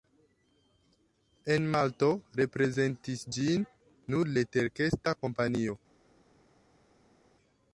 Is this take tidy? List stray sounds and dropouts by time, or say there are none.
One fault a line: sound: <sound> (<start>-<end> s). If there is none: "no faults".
no faults